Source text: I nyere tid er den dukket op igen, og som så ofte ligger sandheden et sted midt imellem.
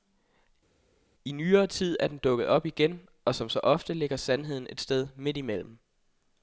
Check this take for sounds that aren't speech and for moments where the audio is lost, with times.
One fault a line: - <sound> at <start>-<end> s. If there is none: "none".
none